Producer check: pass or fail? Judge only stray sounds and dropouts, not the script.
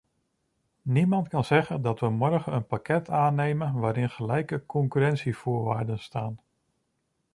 pass